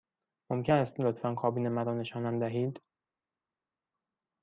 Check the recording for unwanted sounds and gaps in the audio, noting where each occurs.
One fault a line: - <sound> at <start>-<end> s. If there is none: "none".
none